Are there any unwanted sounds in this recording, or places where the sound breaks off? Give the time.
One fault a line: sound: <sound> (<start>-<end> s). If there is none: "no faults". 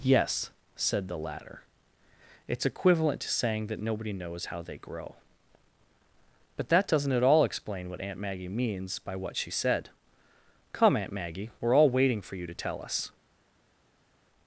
no faults